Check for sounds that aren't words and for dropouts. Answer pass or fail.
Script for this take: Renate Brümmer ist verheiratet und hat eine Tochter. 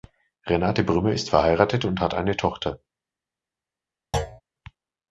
fail